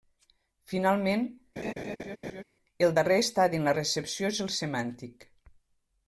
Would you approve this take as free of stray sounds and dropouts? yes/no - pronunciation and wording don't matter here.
no